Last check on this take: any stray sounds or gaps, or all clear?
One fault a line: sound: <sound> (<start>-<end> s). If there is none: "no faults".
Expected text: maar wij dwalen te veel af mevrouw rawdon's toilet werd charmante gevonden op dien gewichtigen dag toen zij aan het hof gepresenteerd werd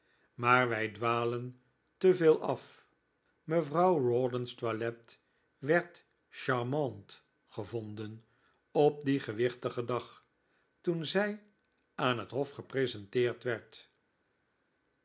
no faults